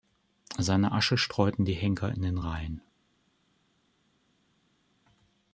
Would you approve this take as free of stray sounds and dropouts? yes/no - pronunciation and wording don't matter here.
yes